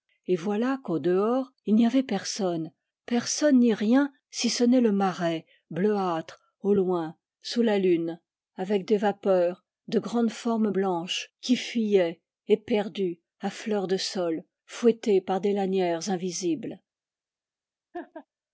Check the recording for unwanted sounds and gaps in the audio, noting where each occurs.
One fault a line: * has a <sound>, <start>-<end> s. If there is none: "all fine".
* has a laugh, 17.9-18.3 s